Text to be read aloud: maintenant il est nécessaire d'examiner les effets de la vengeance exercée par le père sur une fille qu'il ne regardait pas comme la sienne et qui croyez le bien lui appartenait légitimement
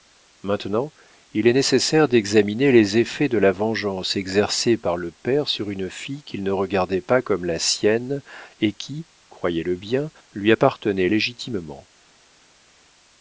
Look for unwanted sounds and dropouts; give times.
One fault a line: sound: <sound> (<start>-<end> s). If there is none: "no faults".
no faults